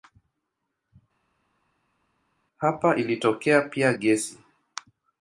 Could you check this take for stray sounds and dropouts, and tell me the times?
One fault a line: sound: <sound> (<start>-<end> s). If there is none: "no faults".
no faults